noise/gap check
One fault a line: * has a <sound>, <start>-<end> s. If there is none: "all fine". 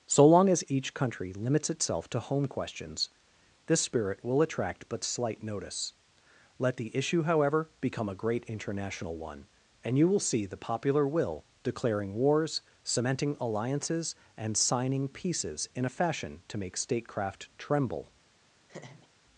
* has a laugh, 18.7-19.1 s